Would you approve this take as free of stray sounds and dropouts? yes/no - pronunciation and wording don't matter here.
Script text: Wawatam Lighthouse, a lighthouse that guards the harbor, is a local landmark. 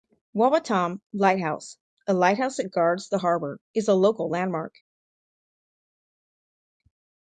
yes